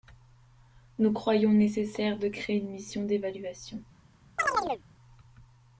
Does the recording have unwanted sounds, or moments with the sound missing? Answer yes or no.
yes